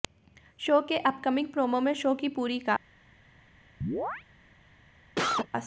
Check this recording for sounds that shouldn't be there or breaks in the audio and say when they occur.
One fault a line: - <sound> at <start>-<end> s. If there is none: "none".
- chirp at 3.8-4.2 s
- cough at 5.2-5.5 s